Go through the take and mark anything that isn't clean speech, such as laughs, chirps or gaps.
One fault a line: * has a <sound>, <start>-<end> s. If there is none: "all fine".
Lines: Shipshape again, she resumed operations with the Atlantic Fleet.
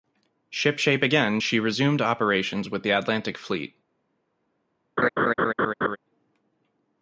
* has a laugh, 5.0-6.0 s